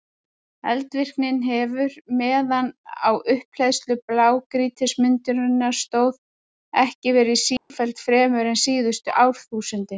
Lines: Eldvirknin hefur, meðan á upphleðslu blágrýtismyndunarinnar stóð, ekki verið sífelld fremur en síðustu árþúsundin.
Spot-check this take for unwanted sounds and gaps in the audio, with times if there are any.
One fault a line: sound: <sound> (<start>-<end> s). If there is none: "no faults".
sound: dropout (7.6-7.7 s)